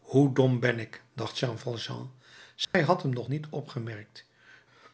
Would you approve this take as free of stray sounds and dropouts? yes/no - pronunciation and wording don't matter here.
no